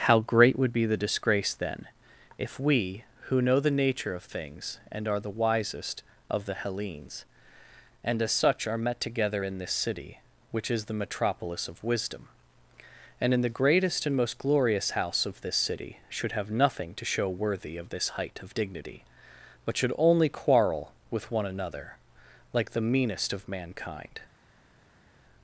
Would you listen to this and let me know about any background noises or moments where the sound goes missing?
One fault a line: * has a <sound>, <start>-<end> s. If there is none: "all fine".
all fine